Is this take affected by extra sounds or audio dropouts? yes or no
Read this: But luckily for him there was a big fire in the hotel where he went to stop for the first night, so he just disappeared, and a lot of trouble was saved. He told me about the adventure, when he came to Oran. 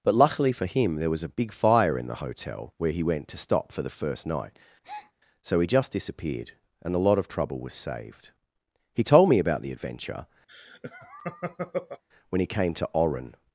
yes